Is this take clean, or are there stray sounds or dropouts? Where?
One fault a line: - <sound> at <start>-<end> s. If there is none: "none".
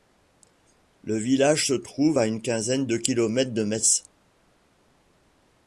none